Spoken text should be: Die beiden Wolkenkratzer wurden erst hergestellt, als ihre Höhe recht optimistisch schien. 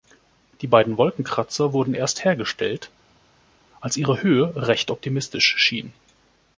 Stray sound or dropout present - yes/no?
no